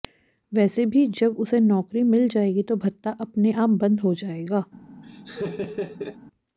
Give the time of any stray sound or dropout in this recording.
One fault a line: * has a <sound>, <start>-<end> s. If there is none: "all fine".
* has a laugh, 5.0-6.2 s